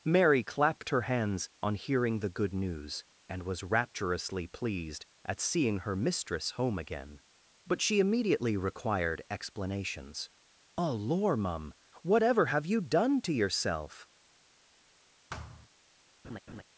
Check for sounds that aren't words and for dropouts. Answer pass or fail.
fail